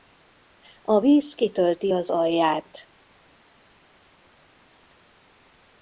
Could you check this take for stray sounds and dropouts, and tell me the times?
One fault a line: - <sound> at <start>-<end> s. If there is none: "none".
none